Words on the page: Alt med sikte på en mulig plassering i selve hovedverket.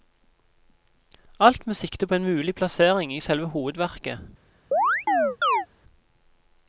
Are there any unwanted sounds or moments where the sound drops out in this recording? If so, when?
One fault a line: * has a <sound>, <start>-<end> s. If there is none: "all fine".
* has a chirp, 4.7-5.7 s